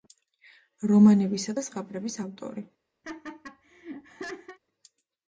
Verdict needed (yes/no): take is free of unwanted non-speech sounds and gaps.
no